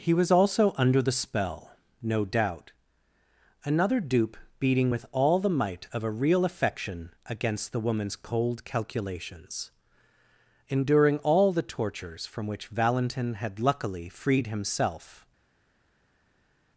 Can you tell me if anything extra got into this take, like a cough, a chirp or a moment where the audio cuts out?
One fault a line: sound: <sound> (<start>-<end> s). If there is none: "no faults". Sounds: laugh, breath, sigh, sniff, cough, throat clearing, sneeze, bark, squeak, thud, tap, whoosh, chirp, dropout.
no faults